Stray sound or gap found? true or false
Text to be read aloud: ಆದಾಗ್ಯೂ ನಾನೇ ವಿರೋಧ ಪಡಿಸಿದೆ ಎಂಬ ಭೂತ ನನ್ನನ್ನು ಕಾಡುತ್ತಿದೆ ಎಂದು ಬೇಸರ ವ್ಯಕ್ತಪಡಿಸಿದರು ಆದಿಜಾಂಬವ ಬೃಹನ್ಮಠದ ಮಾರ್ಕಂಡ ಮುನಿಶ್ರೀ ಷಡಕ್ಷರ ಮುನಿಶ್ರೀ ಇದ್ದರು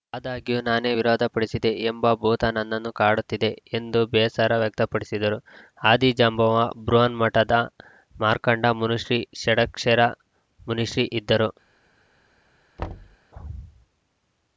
true